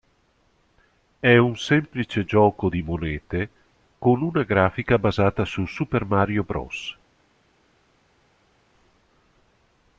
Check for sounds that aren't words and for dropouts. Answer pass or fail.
pass